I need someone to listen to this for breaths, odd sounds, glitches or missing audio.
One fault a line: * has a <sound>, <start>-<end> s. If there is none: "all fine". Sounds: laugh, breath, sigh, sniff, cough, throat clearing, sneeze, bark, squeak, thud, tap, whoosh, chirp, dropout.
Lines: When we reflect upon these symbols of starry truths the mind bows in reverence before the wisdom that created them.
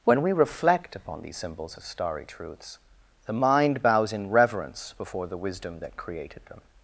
all fine